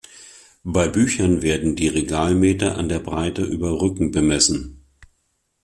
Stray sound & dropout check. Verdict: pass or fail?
pass